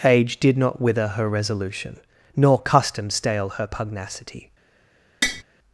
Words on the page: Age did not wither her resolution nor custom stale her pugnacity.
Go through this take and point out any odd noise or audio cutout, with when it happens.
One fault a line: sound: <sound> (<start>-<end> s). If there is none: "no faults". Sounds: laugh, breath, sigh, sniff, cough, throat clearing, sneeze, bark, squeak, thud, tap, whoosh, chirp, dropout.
sound: tap (5.2-5.4 s)